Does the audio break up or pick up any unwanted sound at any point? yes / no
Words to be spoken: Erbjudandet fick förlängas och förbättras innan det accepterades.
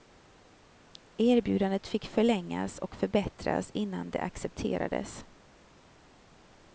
no